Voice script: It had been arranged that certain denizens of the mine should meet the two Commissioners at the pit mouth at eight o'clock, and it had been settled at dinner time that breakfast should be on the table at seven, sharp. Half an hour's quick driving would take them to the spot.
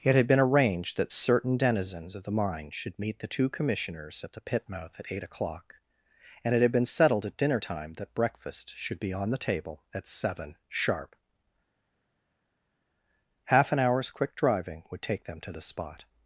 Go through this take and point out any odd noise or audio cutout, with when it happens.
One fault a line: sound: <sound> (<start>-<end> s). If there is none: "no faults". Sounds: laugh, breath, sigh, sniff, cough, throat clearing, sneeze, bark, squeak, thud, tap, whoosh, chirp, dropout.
no faults